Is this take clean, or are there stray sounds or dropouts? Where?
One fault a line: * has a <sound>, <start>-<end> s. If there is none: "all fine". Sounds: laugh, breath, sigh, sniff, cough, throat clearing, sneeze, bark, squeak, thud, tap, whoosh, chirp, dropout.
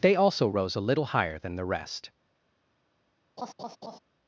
* has a laugh, 3.4-4.0 s